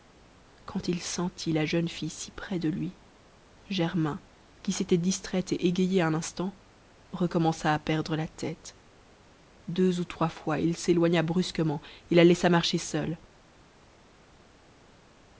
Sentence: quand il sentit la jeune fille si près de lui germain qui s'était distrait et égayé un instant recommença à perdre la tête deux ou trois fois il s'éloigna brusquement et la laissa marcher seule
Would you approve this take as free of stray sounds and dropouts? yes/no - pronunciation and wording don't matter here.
yes